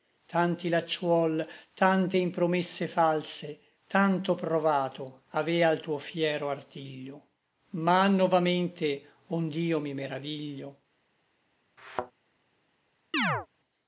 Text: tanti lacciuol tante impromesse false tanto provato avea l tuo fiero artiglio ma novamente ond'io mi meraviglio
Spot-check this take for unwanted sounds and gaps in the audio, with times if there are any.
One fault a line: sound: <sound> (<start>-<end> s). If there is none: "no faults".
sound: thud (11.8-12.1 s)
sound: chirp (13.1-13.5 s)